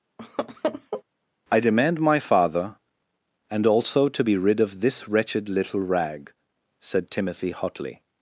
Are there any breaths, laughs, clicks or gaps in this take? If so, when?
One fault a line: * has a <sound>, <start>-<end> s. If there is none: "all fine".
* has a laugh, 0.2-1.0 s